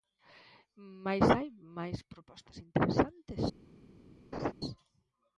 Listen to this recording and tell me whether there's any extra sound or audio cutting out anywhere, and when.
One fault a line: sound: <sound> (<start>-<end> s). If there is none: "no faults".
sound: laugh (4.3-4.5 s)